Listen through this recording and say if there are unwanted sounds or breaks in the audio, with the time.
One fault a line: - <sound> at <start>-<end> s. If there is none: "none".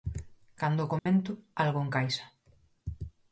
- dropout at 1.0-1.1 s